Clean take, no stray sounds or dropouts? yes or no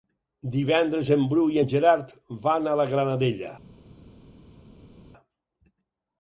yes